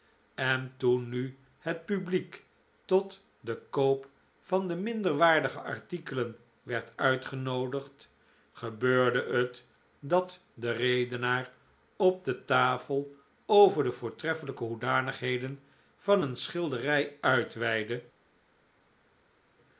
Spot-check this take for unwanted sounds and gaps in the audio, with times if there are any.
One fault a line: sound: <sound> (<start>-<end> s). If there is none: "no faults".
no faults